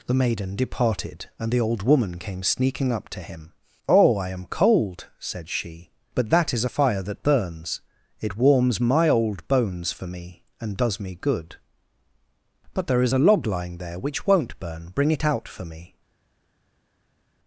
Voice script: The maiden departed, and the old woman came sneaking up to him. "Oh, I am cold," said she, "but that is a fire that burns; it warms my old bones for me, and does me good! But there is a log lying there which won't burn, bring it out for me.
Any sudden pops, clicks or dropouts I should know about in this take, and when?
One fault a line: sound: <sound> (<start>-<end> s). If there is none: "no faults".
no faults